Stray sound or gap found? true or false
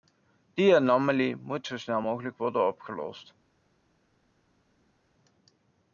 false